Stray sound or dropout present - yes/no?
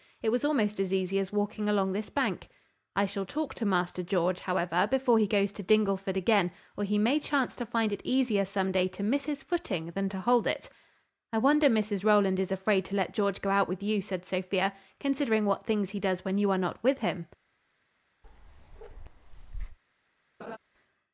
yes